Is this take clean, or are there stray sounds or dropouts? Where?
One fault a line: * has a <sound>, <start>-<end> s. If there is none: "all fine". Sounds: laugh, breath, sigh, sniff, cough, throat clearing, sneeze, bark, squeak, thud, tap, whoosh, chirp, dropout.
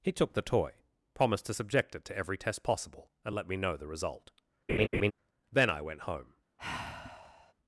* has a laugh, 4.7-5.1 s
* has a sigh, 6.6-7.5 s